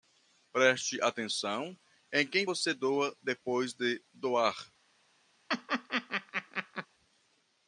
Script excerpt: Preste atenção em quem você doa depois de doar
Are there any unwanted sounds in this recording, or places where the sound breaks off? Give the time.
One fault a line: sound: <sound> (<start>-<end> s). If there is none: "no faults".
sound: laugh (5.5-6.9 s)